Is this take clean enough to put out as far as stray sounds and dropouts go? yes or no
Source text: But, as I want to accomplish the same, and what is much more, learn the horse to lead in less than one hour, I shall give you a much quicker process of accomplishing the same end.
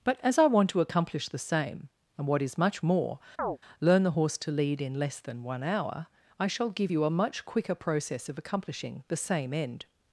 no